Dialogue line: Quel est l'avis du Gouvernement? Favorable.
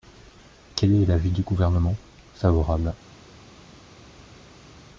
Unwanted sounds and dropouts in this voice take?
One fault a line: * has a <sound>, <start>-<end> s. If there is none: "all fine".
all fine